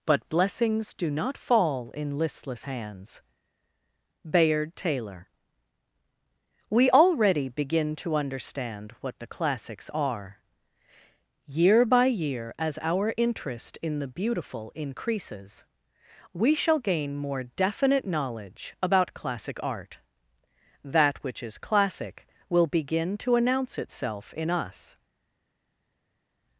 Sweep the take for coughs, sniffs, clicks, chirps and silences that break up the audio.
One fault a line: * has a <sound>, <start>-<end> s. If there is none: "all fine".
all fine